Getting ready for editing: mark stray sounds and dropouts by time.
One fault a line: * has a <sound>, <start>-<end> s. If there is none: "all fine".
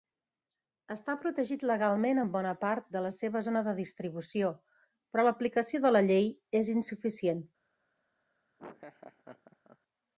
* has a laugh, 8.6-9.8 s